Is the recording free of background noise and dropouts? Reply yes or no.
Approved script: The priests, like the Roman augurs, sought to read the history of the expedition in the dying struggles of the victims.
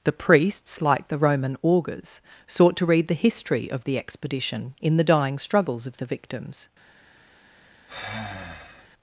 no